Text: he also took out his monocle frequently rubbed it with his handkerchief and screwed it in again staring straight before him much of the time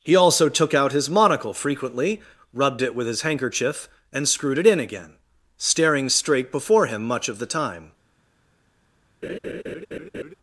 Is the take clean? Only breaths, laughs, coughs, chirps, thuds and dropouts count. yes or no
no